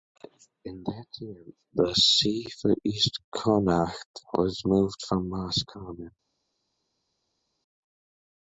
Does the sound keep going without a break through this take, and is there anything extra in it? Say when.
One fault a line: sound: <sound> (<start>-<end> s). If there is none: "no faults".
no faults